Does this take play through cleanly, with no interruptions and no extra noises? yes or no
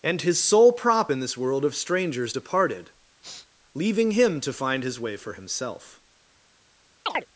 no